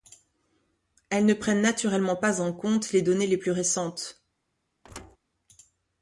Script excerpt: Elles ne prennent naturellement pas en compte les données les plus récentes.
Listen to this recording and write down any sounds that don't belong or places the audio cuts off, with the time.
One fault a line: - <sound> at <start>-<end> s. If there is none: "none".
- thud at 4.8-5.2 s